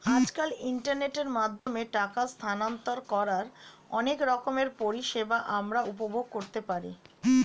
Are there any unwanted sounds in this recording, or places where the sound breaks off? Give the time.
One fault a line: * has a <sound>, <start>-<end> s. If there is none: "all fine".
* has a dropout, 1.6-1.7 s